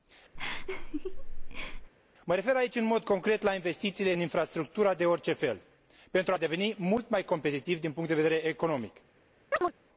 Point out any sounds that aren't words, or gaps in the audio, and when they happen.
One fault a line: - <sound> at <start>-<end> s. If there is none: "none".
- laugh at 0.4-1.9 s
- chirp at 9.5-9.7 s